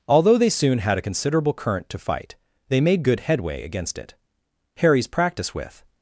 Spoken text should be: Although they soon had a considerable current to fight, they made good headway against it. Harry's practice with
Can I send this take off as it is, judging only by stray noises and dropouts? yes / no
yes